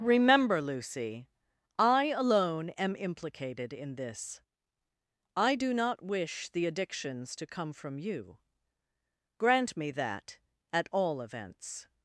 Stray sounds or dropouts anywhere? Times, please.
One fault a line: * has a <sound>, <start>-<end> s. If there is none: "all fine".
all fine